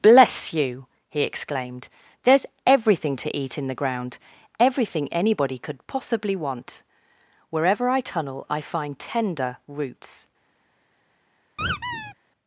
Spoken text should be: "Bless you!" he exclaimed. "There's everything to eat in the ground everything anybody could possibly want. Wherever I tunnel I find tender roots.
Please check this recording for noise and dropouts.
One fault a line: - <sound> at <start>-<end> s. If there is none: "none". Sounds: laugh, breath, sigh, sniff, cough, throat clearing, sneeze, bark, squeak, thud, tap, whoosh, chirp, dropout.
- squeak at 11.6-12.1 s